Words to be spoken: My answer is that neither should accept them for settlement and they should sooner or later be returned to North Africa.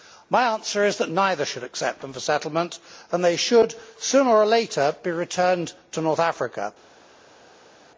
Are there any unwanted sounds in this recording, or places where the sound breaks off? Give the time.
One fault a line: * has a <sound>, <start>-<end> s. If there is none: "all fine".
all fine